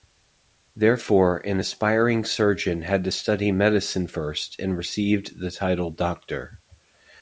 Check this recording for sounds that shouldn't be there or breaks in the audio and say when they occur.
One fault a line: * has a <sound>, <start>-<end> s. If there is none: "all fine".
all fine